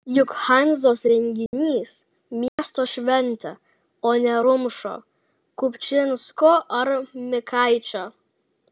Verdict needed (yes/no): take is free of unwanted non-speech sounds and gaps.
no